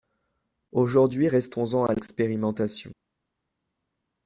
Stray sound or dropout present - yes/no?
no